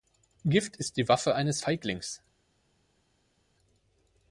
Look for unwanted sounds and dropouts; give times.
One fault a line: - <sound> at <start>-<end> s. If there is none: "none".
none